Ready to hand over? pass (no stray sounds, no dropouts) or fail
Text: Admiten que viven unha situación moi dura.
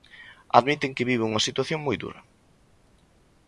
pass